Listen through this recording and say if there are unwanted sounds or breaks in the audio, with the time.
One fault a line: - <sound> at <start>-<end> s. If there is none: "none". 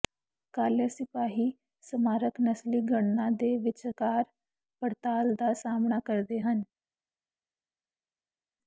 none